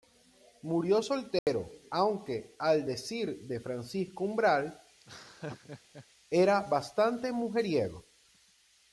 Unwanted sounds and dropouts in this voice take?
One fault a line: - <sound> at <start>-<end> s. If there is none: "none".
- dropout at 1.4-1.5 s
- laugh at 5.0-6.1 s